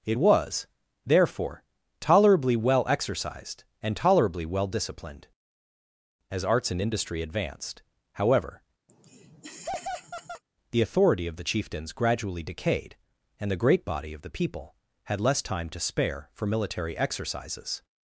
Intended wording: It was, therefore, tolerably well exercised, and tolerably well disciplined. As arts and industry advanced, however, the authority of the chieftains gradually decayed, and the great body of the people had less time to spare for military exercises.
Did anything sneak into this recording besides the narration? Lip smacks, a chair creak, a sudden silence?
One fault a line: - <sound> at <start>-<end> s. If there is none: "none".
- laugh at 8.9-10.4 s